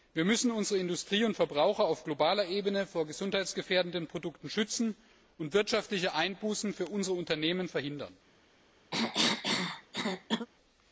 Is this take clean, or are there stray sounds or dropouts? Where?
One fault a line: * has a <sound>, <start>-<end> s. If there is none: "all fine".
* has a cough, 8.9-10.5 s